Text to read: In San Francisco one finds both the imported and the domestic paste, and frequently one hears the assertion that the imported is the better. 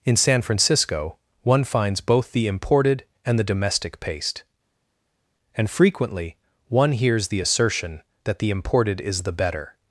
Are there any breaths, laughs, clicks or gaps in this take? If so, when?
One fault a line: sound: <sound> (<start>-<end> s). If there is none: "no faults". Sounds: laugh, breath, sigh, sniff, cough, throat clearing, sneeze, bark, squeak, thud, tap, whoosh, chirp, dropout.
no faults